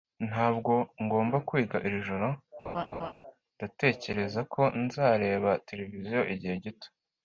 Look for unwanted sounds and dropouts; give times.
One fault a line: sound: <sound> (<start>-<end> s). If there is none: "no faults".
sound: laugh (2.6-3.1 s)